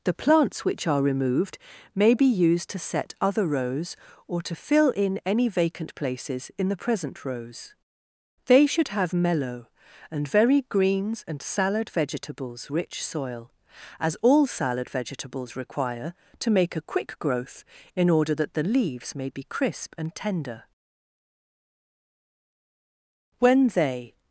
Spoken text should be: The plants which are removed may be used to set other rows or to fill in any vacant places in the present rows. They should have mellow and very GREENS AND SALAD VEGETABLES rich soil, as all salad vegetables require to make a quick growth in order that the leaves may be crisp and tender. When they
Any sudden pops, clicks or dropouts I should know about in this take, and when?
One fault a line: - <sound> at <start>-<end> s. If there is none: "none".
none